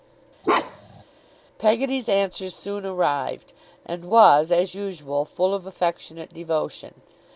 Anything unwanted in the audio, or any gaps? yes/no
yes